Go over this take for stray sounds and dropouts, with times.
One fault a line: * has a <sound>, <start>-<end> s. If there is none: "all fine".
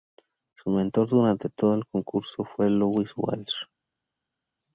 all fine